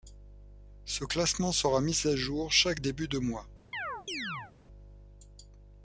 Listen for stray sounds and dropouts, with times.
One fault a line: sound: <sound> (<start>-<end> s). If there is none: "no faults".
sound: chirp (3.7-4.5 s)